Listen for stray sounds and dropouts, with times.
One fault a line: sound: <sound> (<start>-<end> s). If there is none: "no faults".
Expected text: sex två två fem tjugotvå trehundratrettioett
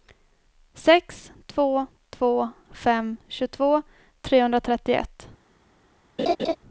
sound: laugh (6.2-6.6 s)